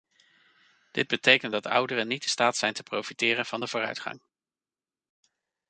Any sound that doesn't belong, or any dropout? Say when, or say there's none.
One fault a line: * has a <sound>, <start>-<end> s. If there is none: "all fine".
all fine